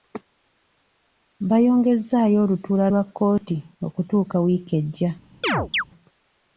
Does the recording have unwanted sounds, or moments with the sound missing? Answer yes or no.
yes